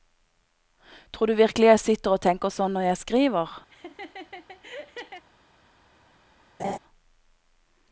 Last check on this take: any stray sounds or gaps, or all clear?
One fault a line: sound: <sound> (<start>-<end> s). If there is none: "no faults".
sound: laugh (3.7-5.3 s)
sound: laugh (6.6-6.8 s)